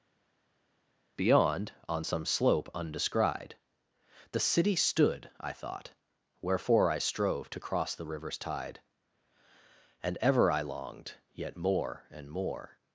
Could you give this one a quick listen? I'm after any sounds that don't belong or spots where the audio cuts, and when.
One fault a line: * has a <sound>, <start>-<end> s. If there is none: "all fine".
all fine